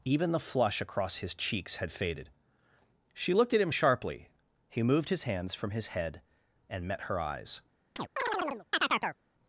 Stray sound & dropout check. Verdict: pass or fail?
fail